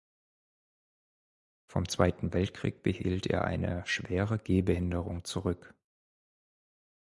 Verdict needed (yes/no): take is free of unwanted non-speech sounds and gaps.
yes